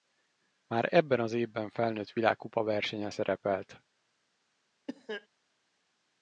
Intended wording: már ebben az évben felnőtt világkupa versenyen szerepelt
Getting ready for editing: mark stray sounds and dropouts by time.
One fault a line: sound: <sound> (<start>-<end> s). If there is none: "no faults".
sound: cough (4.9-5.3 s)